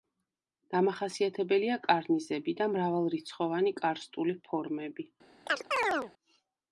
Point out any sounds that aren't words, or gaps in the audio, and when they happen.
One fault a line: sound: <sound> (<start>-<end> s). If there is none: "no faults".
sound: chirp (5.5-6.1 s)